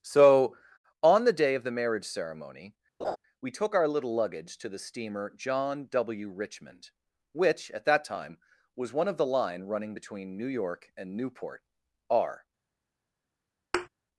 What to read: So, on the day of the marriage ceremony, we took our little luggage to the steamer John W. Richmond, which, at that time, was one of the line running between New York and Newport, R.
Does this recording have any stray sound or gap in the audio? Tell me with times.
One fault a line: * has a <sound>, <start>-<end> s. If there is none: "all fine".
* has a laugh, 3.0-3.2 s
* has a thud, 13.7-13.9 s